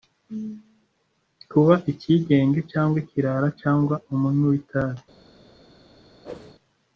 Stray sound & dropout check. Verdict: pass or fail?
fail